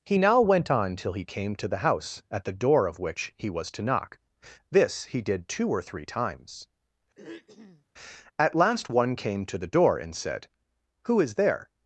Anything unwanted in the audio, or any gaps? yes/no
yes